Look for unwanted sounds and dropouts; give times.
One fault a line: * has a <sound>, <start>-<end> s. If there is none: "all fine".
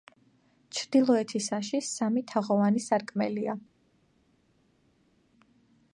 all fine